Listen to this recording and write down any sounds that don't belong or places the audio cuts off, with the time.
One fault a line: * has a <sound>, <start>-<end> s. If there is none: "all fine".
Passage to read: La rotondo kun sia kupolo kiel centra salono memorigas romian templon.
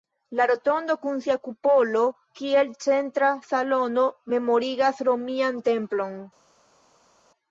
all fine